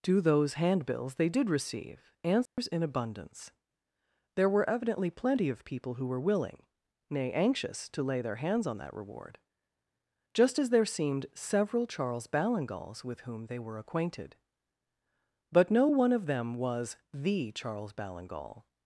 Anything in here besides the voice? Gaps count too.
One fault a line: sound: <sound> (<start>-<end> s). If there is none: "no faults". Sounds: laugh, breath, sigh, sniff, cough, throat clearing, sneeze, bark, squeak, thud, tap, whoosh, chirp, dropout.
sound: dropout (2.5-2.6 s)